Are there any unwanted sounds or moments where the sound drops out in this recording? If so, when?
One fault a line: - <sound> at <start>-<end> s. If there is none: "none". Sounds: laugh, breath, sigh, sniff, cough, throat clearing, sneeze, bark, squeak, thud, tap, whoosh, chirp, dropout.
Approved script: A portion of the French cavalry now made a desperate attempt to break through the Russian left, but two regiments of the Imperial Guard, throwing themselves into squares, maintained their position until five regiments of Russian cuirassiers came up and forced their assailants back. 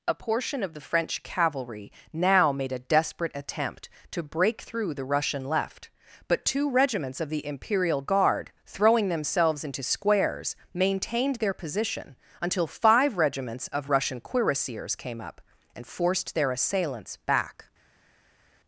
none